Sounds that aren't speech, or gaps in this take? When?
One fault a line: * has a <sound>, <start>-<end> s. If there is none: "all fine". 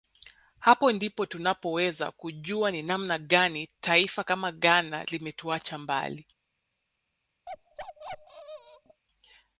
* has a bark, 7.5-9.0 s